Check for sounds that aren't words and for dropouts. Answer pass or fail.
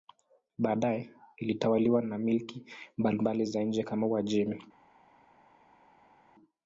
pass